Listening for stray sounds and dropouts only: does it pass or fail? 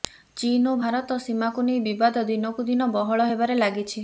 pass